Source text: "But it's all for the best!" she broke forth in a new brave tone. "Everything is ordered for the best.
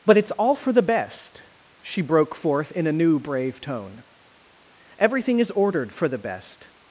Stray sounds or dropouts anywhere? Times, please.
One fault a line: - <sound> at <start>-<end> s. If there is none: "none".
none